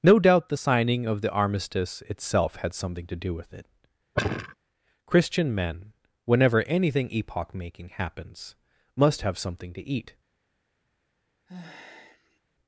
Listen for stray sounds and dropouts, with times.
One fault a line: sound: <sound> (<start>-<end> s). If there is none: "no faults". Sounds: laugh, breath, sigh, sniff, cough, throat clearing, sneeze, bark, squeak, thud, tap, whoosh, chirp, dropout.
sound: sigh (4.1-4.5 s)
sound: sigh (11.5-12.4 s)